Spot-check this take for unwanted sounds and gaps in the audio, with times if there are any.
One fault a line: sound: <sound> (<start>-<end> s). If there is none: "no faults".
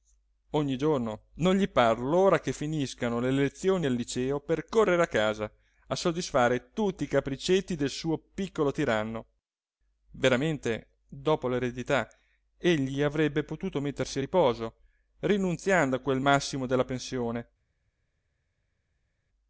no faults